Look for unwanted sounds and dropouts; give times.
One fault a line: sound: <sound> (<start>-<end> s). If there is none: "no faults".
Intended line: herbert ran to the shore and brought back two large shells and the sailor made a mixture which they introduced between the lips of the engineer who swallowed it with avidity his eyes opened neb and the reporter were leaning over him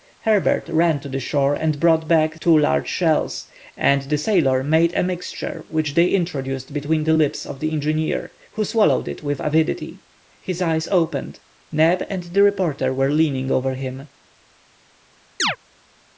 sound: chirp (15.4-15.6 s)